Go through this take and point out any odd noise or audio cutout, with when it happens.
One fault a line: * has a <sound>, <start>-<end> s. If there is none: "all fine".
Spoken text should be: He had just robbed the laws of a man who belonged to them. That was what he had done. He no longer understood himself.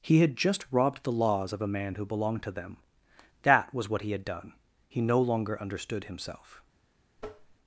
* has a tap, 7.2-7.6 s